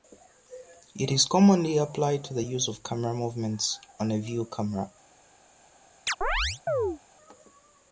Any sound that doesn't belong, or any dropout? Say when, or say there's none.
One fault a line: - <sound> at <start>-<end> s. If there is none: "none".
- chirp at 6.1-7.0 s